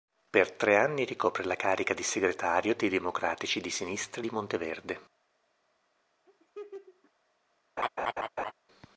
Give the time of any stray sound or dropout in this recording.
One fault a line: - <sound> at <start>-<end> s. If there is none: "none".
- laugh at 6.3-7.1 s
- laugh at 7.8-8.5 s